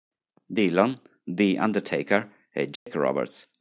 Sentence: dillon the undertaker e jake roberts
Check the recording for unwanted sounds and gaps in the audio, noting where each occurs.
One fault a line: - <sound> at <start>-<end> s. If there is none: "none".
- dropout at 2.8-2.9 s